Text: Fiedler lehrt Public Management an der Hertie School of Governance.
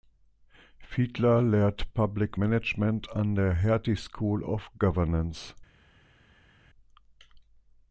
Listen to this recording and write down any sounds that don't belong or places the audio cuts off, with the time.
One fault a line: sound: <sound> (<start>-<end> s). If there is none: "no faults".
no faults